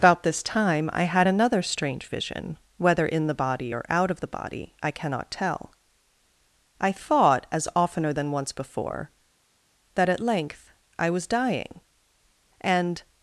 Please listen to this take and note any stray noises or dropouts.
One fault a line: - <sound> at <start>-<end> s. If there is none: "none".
none